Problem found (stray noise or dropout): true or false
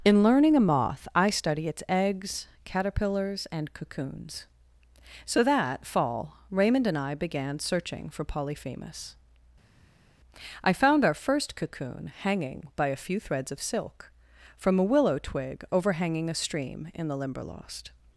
false